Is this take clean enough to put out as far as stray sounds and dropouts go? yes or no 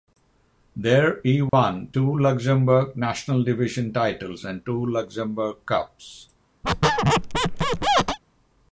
no